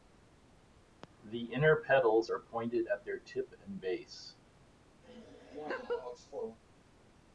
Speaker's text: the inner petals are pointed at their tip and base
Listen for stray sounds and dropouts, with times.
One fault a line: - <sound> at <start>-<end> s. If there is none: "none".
- laugh at 5.0-6.6 s